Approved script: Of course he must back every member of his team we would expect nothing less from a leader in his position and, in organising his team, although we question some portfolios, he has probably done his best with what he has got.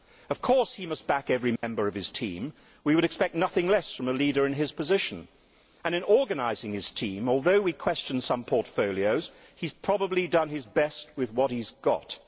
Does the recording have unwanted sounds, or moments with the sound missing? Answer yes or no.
yes